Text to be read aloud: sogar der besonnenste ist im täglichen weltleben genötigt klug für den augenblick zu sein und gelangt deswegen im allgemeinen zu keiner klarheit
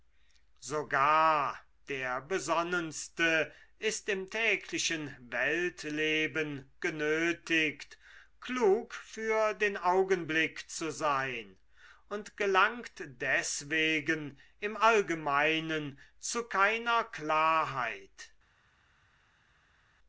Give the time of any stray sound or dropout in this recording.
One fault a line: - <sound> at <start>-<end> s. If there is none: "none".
none